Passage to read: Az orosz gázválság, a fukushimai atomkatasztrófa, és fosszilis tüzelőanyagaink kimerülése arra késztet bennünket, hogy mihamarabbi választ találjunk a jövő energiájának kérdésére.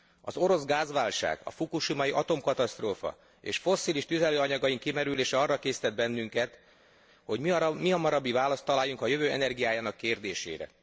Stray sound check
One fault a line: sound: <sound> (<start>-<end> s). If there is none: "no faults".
no faults